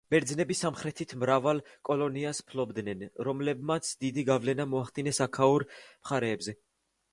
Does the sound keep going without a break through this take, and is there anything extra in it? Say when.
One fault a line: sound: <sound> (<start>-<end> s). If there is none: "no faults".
no faults